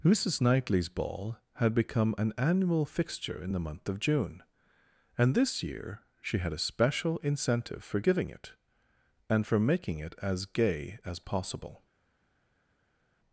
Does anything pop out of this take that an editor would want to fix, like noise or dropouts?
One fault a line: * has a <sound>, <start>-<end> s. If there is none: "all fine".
all fine